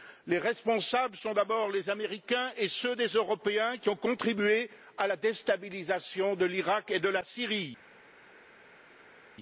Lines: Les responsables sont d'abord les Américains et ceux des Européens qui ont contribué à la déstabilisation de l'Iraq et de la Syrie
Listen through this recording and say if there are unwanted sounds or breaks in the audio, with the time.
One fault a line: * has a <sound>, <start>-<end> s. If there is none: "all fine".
all fine